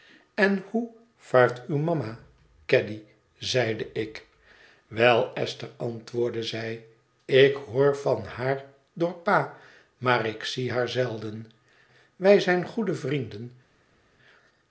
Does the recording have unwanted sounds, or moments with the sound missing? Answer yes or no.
no